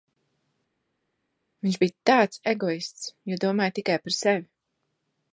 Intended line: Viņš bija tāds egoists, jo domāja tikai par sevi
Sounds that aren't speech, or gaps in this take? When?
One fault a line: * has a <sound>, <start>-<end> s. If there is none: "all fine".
all fine